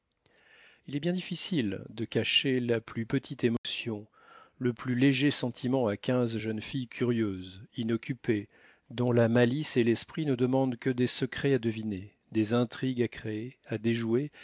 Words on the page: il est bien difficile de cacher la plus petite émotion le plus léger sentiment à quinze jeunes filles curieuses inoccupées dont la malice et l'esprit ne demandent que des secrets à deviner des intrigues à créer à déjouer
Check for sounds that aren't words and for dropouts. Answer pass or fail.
fail